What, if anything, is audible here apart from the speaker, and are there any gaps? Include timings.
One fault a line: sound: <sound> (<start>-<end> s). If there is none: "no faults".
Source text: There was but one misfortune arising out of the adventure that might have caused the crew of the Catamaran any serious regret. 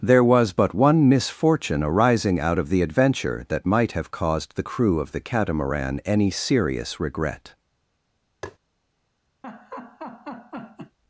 sound: tap (8.4-8.6 s)
sound: laugh (9.4-11.0 s)